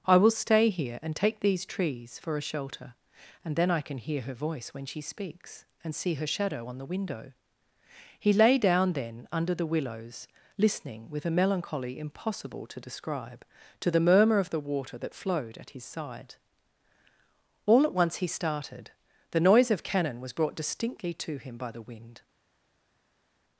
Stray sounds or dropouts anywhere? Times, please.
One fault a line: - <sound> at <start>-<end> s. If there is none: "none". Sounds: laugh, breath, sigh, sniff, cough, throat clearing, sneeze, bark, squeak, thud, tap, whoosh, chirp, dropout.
none